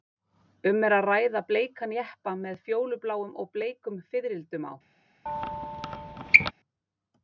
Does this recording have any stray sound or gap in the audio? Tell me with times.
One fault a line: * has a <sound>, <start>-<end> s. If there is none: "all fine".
* has a squeak, 5.3-6.5 s